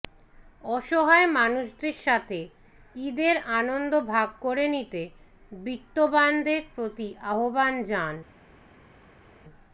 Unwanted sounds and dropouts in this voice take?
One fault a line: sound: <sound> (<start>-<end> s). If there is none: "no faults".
no faults